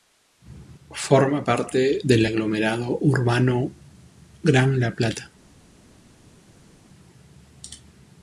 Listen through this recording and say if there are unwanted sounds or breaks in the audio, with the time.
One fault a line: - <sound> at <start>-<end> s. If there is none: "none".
none